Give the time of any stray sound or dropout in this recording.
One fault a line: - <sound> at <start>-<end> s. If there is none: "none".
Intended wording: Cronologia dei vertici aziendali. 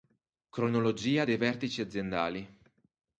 none